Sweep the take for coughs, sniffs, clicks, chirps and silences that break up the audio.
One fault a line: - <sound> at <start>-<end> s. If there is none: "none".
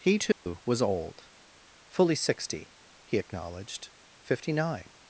- dropout at 0.3-0.5 s